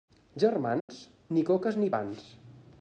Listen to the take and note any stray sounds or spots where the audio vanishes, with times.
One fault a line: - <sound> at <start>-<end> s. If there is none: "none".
- dropout at 0.8-0.9 s